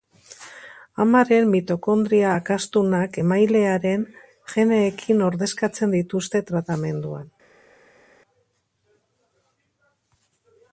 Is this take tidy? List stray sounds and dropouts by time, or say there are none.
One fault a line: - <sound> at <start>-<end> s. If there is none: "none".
none